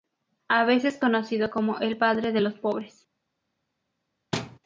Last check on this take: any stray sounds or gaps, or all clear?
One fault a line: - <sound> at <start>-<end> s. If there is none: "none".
- thud at 4.3-4.6 s